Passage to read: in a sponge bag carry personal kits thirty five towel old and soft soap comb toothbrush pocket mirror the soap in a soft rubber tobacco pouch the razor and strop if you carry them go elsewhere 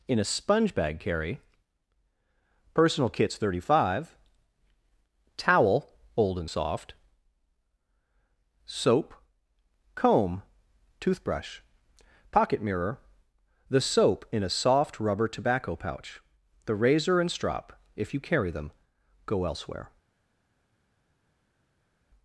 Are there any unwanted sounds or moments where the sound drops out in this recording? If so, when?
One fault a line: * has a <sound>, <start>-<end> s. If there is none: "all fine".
all fine